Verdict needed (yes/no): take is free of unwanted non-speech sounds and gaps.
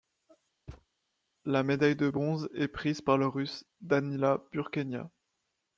no